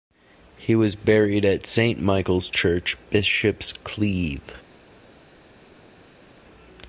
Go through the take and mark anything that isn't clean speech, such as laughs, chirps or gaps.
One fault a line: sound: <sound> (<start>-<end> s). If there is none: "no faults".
no faults